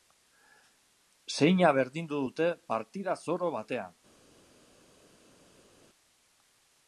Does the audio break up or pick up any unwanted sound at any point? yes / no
no